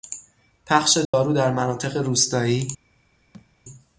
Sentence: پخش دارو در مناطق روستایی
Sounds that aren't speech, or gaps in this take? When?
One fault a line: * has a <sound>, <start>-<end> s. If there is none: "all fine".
* has a dropout, 1.0-1.1 s
* has a thud, 3.3-3.5 s